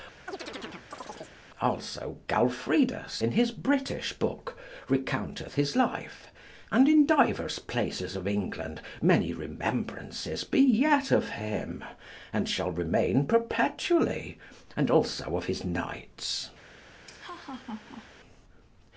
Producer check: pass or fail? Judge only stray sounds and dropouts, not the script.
fail